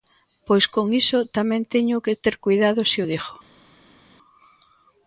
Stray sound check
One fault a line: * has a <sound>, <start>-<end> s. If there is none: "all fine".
all fine